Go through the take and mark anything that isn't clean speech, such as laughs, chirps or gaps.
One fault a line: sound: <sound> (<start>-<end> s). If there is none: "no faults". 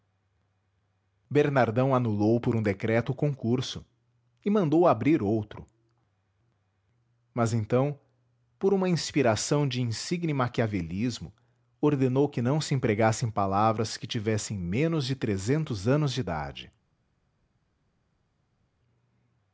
no faults